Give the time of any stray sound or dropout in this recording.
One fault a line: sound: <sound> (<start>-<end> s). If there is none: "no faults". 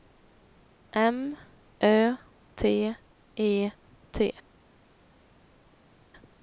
no faults